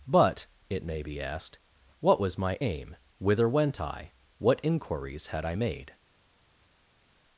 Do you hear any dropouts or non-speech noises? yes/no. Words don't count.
no